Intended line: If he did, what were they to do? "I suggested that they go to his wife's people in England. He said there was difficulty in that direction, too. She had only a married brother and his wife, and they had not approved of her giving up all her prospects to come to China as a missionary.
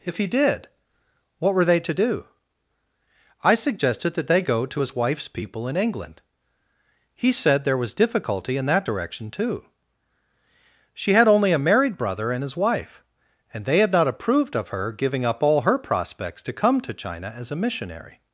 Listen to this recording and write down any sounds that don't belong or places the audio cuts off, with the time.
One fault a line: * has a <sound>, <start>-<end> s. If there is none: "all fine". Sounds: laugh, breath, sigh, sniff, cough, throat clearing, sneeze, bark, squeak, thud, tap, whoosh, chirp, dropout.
all fine